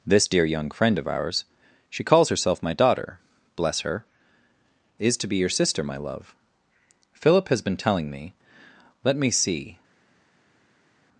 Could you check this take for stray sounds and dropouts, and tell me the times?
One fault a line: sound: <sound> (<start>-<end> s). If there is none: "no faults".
no faults